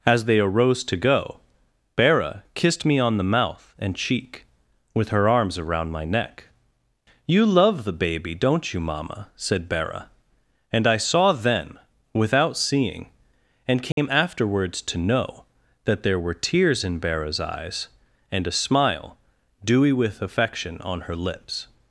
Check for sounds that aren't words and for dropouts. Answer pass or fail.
fail